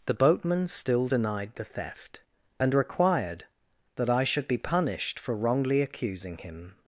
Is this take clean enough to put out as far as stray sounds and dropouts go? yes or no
yes